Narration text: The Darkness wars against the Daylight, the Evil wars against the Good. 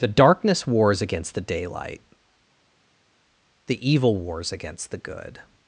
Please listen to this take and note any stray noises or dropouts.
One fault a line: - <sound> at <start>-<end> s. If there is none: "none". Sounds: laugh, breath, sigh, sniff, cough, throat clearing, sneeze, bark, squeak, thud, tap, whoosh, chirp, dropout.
none